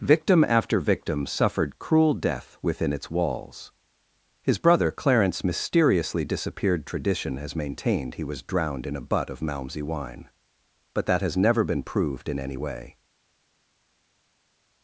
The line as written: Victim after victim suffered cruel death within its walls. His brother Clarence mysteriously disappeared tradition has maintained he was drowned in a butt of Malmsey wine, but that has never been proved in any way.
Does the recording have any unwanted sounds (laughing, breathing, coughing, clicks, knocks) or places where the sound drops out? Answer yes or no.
no